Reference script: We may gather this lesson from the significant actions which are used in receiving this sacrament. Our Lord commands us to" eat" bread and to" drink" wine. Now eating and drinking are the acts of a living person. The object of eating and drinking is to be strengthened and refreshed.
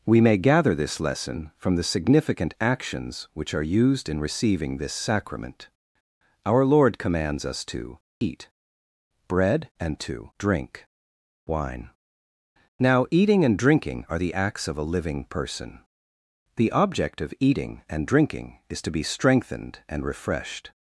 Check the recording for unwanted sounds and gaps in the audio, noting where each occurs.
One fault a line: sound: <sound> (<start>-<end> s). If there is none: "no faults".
no faults